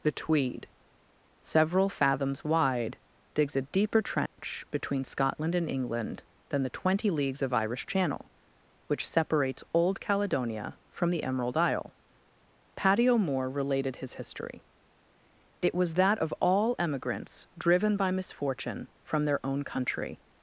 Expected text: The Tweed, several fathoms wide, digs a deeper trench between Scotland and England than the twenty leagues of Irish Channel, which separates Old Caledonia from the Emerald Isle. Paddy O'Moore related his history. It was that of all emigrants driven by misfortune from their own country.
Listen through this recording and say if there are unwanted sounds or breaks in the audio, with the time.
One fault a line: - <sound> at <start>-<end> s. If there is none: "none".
- dropout at 4.3-4.4 s